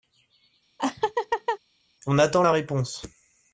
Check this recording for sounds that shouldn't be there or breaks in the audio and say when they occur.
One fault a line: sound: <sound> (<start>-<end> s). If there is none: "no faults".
sound: laugh (0.8-1.6 s)